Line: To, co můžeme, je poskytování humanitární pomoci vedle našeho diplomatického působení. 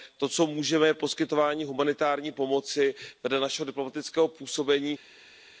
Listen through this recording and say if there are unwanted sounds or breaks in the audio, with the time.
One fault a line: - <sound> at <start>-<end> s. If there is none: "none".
none